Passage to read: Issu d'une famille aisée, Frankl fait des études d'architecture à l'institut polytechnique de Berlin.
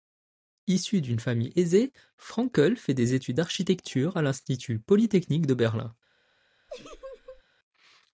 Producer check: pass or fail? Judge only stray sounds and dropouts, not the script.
fail